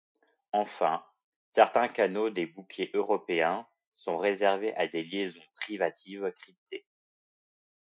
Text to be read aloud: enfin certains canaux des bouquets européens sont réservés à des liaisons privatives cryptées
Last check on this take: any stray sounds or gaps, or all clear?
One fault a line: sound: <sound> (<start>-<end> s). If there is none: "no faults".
no faults